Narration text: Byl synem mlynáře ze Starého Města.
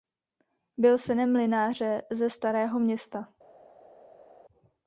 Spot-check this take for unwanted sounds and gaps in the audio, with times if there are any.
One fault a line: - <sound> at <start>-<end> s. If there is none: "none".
none